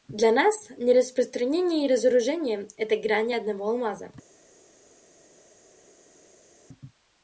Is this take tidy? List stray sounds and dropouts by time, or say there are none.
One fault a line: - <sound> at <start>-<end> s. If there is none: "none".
none